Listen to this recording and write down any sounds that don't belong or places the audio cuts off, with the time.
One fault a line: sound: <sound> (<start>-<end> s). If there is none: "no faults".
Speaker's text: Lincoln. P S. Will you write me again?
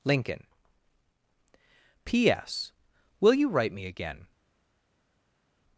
no faults